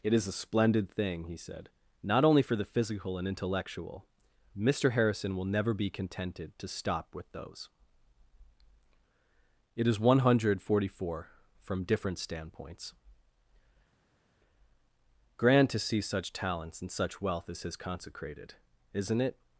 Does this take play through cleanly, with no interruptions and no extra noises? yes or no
yes